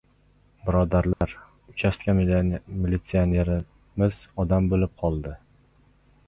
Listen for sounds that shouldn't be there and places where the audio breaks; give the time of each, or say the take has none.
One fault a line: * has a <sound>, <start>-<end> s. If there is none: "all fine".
* has a dropout, 1.1-1.2 s